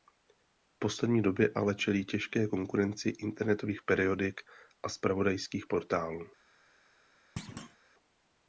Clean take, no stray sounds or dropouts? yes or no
no